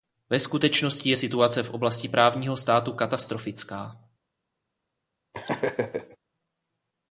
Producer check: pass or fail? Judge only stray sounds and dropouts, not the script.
fail